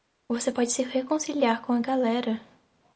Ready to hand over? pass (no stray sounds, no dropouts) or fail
pass